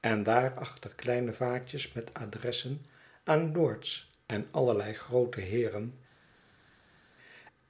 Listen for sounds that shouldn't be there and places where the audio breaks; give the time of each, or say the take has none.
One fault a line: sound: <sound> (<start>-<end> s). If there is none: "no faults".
no faults